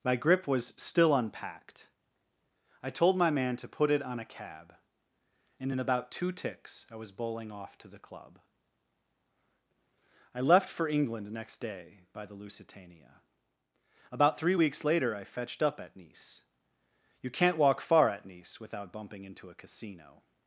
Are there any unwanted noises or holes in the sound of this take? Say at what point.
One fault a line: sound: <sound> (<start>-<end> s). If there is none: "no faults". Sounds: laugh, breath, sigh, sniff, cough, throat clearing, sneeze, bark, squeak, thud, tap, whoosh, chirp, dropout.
no faults